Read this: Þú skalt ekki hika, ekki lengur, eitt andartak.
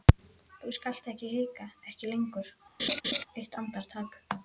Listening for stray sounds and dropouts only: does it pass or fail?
fail